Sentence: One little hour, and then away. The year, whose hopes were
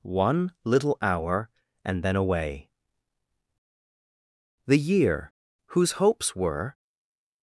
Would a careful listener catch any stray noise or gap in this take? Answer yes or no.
no